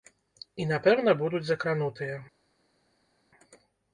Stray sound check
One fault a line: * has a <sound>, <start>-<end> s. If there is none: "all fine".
all fine